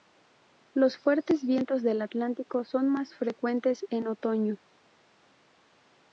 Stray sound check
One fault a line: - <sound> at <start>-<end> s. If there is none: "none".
none